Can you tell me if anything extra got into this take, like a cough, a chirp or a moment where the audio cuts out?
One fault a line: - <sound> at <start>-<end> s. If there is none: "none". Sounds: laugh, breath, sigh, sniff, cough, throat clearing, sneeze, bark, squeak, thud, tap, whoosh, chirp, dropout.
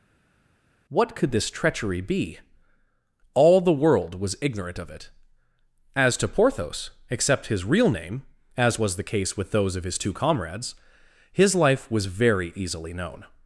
none